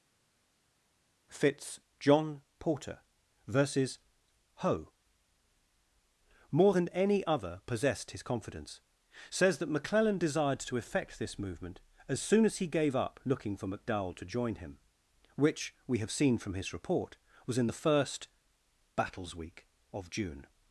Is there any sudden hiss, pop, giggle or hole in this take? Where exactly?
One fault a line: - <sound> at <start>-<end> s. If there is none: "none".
none